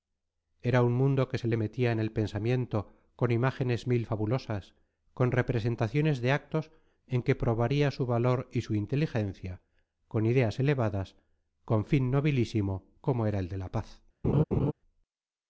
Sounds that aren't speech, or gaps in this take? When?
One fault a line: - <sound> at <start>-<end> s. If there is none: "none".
- laugh at 14.2-14.7 s